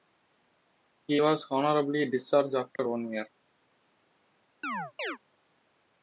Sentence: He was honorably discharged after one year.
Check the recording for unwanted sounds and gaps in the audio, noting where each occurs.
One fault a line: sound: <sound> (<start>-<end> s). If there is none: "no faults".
sound: dropout (2.8-2.8 s)
sound: chirp (4.6-5.2 s)